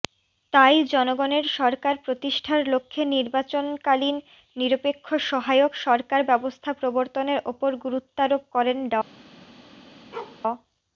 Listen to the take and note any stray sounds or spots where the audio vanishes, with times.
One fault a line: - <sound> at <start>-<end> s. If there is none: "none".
- bark at 10.1-10.4 s